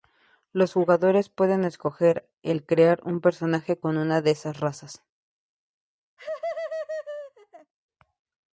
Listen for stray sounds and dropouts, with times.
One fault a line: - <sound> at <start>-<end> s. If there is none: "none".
- laugh at 6.2-7.7 s